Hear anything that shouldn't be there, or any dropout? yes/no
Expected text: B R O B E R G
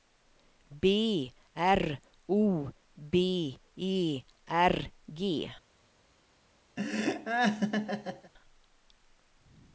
yes